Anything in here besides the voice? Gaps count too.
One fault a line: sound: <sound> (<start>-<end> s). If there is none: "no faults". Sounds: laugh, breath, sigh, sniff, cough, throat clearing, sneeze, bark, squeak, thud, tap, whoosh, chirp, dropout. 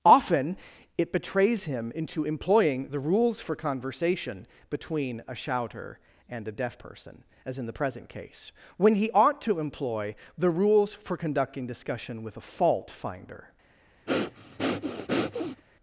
sound: breath (14.1-15.6 s)